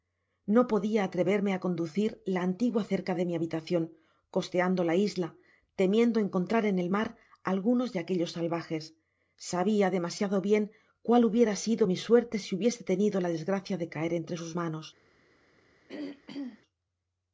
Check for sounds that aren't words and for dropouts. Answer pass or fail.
fail